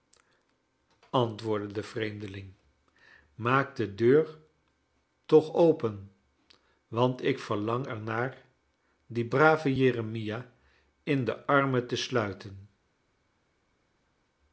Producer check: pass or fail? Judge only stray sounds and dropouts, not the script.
pass